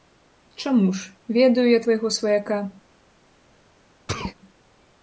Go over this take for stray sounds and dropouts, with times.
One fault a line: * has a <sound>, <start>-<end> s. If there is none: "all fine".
* has a sneeze, 4.1-4.4 s